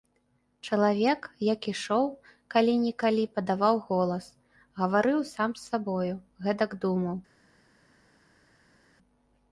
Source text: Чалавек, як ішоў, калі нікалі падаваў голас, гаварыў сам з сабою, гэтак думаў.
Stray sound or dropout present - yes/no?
no